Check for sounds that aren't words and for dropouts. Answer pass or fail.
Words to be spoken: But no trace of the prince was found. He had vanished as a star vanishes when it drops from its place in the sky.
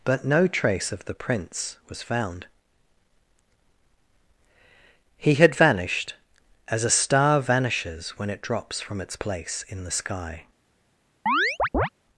fail